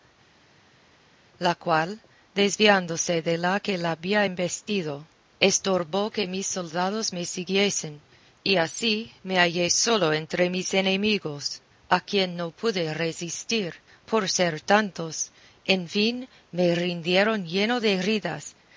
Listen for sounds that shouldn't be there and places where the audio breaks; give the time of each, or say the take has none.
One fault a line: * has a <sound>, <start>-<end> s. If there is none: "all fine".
all fine